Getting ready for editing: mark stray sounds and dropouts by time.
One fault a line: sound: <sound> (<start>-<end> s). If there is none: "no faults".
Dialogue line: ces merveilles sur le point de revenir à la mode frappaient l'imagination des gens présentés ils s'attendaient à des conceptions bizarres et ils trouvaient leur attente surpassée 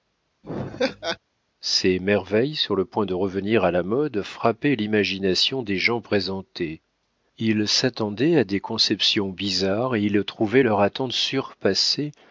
sound: laugh (0.4-1.2 s)